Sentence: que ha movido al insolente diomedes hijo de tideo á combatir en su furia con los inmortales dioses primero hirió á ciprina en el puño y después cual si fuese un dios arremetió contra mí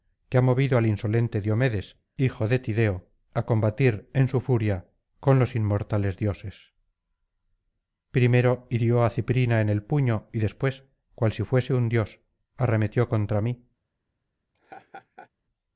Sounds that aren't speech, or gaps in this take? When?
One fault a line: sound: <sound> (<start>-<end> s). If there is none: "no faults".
sound: laugh (14.5-15.3 s)